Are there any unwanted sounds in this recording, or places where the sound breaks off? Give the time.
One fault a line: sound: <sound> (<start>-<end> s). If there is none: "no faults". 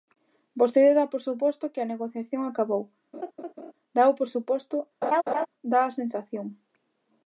sound: laugh (3.1-3.7 s)
sound: laugh (5.0-5.5 s)